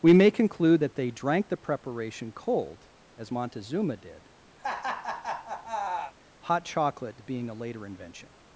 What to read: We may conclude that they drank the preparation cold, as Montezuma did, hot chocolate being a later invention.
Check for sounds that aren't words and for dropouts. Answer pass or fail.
fail